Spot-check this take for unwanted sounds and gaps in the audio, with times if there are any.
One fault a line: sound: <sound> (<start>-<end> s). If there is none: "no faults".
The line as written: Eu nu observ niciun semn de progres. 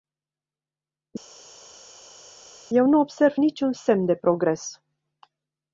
no faults